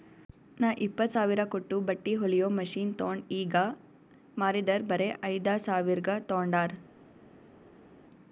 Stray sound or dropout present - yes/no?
no